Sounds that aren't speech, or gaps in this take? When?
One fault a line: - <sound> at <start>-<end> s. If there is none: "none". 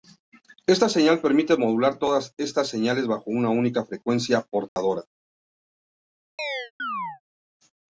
- dropout at 4.7-4.8 s
- chirp at 6.4-7.2 s